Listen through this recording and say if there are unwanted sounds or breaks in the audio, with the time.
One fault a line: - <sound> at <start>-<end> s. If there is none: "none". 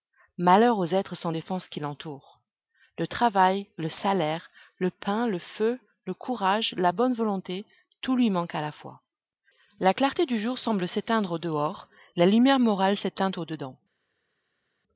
none